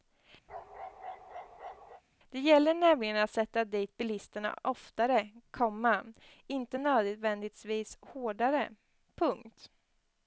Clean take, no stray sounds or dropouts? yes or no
no